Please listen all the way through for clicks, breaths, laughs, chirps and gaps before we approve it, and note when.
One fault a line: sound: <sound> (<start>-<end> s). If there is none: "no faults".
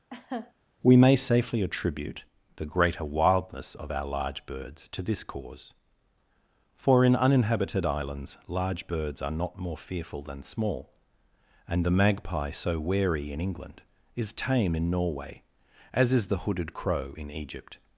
sound: laugh (0.1-0.5 s)